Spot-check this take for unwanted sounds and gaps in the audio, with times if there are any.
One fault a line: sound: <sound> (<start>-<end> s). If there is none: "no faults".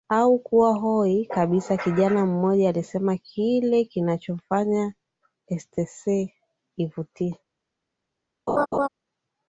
sound: laugh (8.5-8.9 s)